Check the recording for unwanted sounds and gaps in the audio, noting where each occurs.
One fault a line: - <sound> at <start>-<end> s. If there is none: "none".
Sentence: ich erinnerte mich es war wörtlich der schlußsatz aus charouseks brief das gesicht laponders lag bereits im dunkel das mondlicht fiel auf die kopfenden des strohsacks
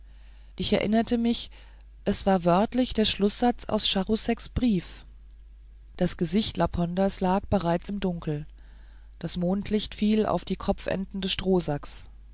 none